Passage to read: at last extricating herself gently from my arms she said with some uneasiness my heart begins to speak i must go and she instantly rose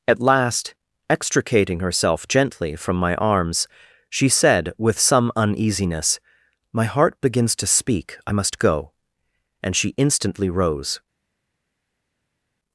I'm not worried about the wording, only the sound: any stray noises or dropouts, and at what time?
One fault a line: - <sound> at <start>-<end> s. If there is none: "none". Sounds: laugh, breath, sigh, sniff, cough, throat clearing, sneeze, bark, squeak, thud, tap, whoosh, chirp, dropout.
none